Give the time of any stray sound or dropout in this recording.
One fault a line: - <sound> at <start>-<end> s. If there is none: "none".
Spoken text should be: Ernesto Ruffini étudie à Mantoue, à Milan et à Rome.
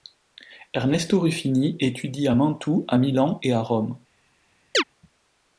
- chirp at 4.7-4.8 s